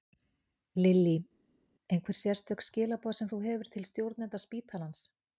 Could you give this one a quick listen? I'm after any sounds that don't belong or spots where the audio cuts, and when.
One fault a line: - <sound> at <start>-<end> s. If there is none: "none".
none